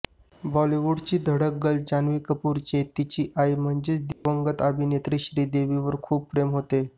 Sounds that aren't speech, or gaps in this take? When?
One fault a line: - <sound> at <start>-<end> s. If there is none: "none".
- dropout at 4.1-4.3 s